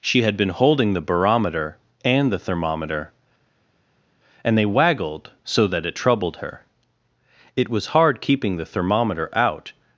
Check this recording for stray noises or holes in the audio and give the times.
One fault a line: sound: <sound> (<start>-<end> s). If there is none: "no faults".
no faults